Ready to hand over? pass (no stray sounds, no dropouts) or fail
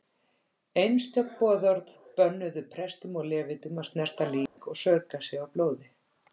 fail